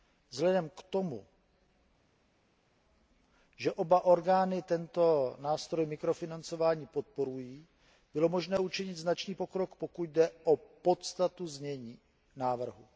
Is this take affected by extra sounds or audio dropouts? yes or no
no